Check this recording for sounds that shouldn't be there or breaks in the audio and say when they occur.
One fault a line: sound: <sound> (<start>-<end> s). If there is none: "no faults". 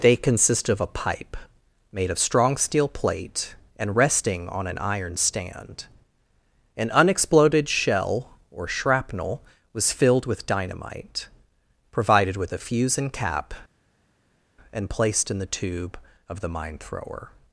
no faults